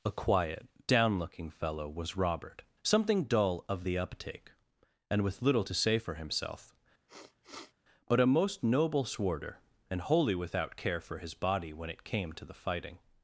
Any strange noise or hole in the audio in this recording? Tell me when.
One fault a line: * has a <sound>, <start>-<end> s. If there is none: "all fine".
* has a sniff, 7.1-7.7 s